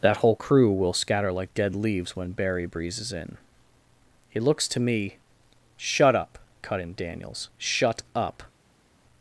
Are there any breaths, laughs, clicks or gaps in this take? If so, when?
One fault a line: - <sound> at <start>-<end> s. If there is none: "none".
none